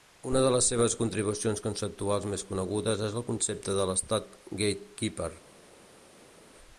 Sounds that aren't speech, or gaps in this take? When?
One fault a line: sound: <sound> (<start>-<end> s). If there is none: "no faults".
no faults